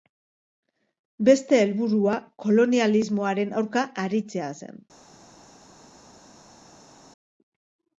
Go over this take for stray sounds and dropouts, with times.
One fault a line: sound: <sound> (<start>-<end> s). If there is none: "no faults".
no faults